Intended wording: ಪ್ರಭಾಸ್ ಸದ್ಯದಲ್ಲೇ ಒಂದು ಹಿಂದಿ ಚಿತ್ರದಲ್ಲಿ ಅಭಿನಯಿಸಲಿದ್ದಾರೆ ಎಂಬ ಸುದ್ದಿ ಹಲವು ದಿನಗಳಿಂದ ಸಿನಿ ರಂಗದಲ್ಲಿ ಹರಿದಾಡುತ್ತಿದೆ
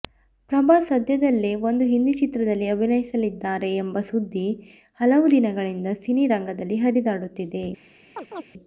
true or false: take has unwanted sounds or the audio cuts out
true